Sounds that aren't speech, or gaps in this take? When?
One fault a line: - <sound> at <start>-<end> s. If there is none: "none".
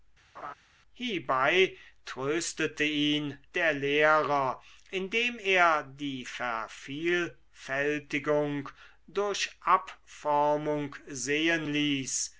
- laugh at 0.4-0.5 s